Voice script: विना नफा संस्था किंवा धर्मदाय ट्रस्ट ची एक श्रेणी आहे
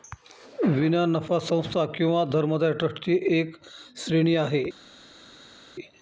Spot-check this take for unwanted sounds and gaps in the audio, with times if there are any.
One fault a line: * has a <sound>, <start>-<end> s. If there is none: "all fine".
all fine